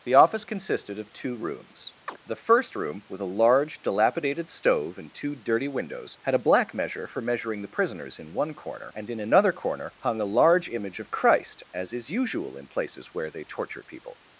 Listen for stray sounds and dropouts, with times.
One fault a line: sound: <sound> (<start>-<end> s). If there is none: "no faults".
sound: chirp (2.1-2.2 s)